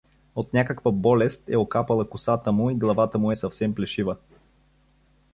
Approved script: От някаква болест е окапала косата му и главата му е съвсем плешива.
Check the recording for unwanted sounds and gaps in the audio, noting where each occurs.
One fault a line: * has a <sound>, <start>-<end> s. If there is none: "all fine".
all fine